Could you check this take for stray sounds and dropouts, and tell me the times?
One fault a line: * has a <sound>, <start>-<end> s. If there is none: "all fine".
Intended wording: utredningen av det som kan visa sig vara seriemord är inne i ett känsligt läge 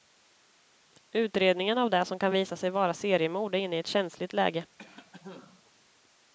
* has a cough, 4.8-5.7 s